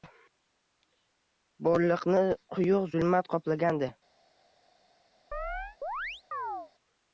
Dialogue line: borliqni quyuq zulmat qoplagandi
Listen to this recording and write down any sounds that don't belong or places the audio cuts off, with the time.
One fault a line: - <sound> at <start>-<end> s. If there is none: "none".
- chirp at 5.3-6.7 s